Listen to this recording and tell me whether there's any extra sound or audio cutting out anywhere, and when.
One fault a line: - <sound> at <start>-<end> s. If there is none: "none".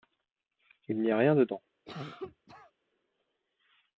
- cough at 1.9-2.7 s